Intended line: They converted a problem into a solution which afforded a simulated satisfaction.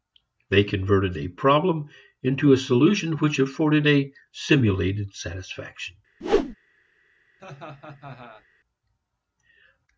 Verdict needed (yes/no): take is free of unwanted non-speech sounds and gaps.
no